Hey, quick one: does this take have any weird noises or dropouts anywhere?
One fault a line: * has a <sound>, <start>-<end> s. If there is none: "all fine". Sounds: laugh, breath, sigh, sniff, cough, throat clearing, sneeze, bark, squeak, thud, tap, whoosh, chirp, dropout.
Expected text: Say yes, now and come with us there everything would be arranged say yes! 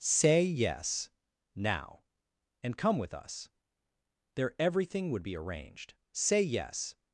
all fine